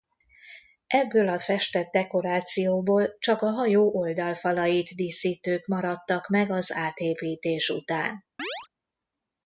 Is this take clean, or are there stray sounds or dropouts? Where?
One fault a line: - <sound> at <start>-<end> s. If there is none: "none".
- chirp at 8.4-8.7 s